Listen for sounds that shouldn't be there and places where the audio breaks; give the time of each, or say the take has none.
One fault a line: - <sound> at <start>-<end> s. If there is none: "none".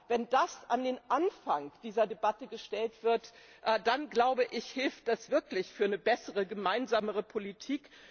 none